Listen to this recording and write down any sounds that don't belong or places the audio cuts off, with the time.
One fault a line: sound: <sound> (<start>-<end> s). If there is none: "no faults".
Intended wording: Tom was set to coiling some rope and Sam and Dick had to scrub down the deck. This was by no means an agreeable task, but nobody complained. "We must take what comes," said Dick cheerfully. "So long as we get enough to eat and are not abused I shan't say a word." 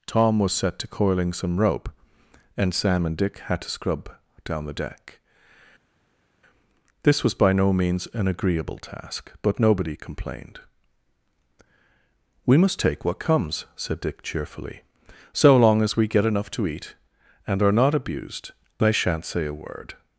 no faults